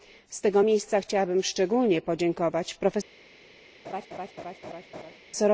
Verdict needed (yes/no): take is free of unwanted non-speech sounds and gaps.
no